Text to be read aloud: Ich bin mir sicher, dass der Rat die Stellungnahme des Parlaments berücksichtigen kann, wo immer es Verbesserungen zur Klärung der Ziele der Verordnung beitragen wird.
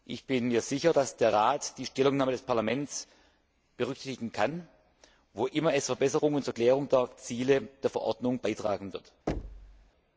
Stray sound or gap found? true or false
true